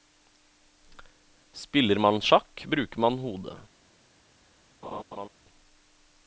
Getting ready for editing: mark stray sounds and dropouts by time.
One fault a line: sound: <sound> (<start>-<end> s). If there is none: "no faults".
sound: laugh (4.8-5.3 s)